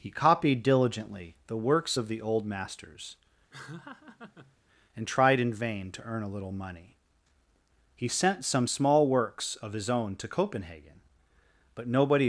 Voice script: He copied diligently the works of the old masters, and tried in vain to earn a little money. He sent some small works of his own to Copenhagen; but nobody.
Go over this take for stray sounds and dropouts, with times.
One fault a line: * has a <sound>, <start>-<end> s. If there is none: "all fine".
* has a laugh, 3.5-4.6 s